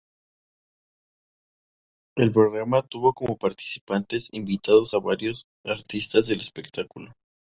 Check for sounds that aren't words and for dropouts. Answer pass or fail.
pass